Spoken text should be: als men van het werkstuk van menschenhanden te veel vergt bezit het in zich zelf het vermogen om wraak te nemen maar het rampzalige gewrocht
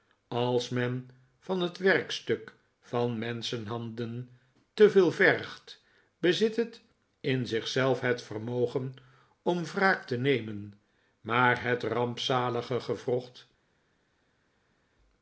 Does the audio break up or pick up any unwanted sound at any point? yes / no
no